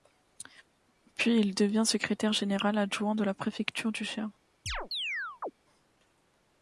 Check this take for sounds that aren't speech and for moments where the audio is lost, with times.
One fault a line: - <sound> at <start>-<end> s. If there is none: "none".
- chirp at 4.7-5.5 s